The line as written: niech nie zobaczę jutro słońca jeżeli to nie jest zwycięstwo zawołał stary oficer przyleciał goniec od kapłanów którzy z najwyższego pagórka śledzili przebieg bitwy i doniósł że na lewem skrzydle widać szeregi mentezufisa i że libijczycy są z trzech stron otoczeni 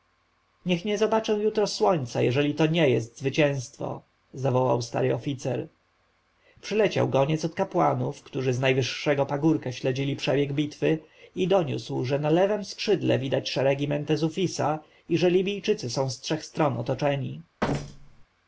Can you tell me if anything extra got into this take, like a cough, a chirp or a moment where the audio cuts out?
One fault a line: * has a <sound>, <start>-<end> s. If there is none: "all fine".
* has a thud, 17.6-18.3 s